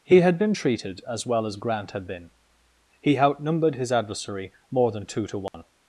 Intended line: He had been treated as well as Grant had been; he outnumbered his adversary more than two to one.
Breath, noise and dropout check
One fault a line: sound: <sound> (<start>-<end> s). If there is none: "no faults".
sound: dropout (5.5-5.5 s)